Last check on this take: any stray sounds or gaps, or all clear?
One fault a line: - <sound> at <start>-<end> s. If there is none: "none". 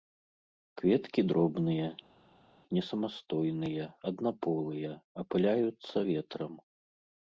none